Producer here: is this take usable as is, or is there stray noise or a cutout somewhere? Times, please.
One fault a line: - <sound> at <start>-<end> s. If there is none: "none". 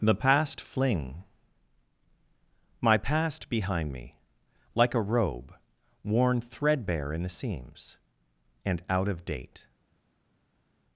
none